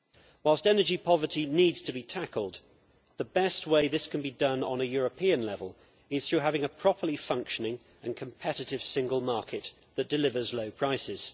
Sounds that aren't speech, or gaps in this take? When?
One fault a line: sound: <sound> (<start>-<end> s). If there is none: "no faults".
no faults